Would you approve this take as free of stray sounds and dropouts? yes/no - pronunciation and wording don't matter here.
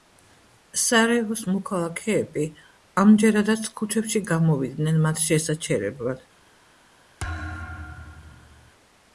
no